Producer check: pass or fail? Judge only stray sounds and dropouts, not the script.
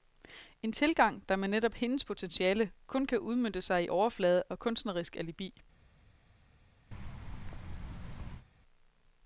fail